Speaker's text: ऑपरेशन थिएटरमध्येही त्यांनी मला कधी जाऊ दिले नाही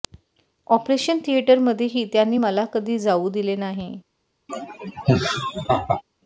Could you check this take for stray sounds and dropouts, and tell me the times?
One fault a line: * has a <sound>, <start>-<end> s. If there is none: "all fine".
* has a laugh, 4.5-6.0 s